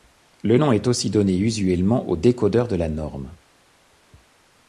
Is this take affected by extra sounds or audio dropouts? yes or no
no